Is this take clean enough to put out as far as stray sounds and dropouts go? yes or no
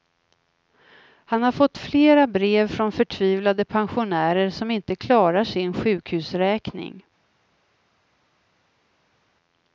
yes